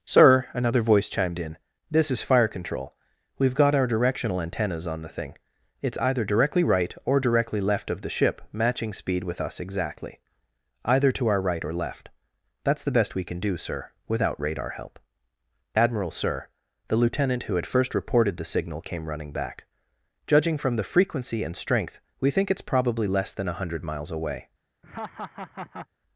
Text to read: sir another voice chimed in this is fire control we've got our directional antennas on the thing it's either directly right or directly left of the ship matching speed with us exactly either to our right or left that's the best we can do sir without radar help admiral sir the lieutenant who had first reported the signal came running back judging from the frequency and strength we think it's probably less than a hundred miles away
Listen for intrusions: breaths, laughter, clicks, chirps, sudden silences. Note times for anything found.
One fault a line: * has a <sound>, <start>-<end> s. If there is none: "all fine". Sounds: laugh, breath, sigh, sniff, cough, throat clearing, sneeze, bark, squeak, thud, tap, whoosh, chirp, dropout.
* has a laugh, 24.8-25.9 s